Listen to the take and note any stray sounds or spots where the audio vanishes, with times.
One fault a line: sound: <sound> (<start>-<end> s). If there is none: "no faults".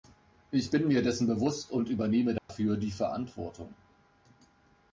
sound: dropout (2.4-2.5 s)